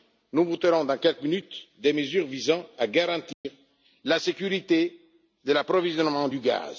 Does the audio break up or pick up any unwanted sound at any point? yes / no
yes